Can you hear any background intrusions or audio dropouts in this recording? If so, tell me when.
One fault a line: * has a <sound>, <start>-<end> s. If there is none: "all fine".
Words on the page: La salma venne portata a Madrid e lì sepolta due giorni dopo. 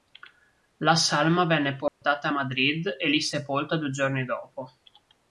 * has a dropout, 1.9-2.0 s